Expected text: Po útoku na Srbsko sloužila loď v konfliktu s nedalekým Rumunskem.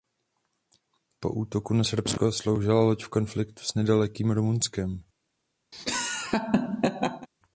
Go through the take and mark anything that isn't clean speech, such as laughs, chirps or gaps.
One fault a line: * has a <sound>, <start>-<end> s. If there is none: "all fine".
* has a laugh, 5.7-7.3 s